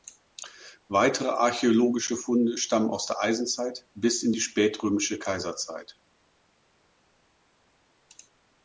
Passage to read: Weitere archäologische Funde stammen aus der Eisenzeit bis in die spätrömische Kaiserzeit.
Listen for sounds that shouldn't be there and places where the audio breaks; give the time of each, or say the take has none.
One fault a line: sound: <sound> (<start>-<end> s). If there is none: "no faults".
no faults